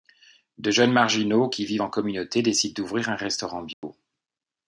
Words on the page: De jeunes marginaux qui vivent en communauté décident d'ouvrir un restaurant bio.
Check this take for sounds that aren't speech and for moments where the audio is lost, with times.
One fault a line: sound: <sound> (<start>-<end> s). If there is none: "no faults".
sound: dropout (3.7-3.8 s)